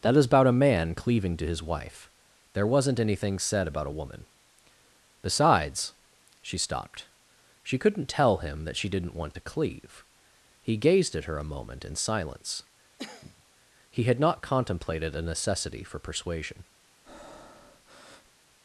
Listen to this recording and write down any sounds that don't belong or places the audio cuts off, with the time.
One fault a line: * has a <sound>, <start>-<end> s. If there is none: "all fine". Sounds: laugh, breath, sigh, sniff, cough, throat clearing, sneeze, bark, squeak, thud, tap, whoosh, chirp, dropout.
* has a cough, 13.0-13.4 s
* has a breath, 17.0-18.4 s